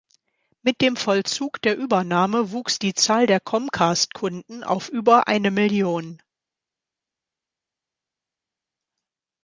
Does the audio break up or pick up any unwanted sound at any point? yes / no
no